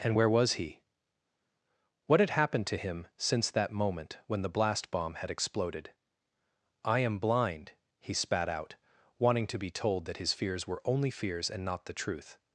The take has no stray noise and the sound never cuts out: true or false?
true